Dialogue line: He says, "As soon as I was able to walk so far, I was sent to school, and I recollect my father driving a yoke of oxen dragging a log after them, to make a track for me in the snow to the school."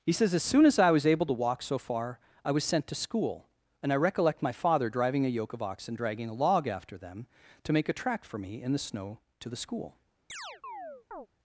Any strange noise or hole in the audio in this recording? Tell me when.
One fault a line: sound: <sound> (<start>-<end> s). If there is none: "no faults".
sound: chirp (10.3-11.3 s)